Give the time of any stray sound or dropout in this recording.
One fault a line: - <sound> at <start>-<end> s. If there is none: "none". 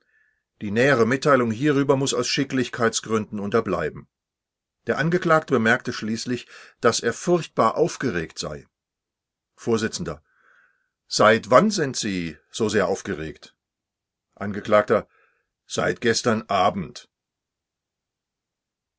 none